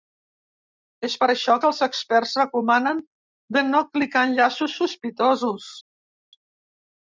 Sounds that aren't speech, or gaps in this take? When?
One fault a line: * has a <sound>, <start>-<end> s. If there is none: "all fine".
all fine